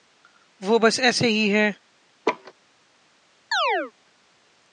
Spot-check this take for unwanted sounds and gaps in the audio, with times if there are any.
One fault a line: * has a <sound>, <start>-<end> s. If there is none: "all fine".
* has a laugh, 2.2-2.5 s
* has a chirp, 3.5-3.9 s